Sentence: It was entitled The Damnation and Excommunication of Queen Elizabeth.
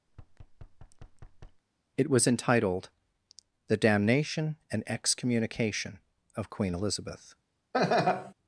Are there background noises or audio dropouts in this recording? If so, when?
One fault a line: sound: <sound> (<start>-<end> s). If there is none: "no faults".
sound: thud (0.1-1.6 s)
sound: laugh (7.7-8.3 s)